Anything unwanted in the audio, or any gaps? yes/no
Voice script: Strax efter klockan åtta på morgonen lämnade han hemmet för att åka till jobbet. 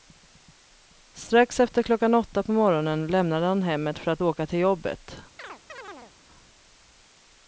yes